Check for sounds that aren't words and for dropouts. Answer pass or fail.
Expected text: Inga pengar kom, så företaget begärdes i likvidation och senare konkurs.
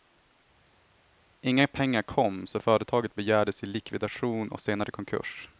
pass